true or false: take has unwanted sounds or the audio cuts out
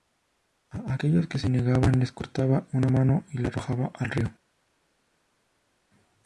false